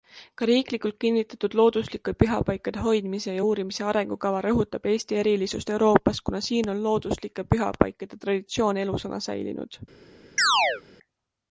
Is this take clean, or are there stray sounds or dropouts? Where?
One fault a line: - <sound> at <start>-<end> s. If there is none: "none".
- chirp at 10.4-10.8 s